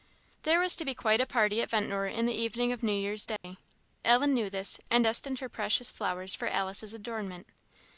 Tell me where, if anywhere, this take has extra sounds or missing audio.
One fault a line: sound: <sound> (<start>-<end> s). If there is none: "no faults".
sound: dropout (3.4-3.4 s)